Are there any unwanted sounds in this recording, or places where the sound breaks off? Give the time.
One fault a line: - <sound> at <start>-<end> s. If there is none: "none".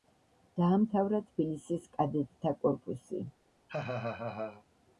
- laugh at 3.7-4.6 s